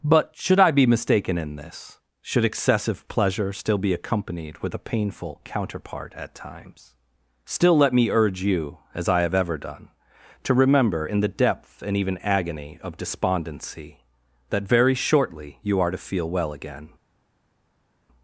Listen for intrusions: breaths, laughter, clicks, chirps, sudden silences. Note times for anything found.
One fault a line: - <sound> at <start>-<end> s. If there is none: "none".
none